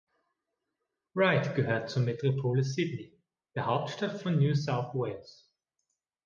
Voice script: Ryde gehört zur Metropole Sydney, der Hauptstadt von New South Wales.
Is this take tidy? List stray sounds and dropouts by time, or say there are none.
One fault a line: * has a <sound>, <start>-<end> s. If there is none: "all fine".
all fine